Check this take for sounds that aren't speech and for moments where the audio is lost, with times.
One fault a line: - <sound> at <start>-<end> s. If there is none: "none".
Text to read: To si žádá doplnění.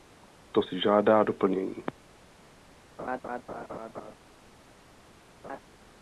- laugh at 3.0-4.2 s
- laugh at 5.4-5.6 s